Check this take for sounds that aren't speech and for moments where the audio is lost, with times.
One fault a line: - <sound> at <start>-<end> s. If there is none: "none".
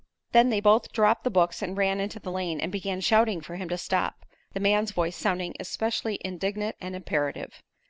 none